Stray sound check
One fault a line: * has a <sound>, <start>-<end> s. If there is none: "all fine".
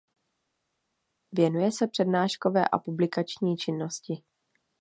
all fine